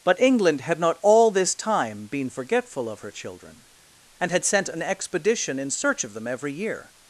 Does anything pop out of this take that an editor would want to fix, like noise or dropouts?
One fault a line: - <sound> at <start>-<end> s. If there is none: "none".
none